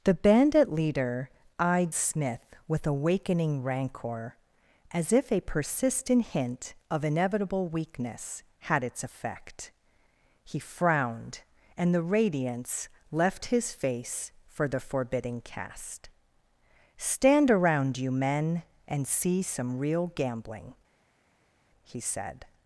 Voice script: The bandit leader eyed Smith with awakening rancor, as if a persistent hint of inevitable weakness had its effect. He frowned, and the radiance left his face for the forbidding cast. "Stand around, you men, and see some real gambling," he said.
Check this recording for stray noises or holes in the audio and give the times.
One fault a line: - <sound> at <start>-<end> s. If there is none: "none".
none